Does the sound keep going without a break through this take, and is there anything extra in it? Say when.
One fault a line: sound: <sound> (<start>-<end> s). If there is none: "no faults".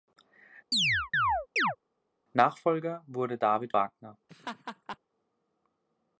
sound: chirp (0.7-1.8 s)
sound: laugh (4.3-5.0 s)